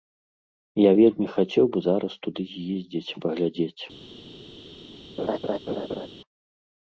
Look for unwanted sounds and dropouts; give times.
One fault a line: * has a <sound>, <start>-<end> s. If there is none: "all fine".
* has a laugh, 5.2-6.1 s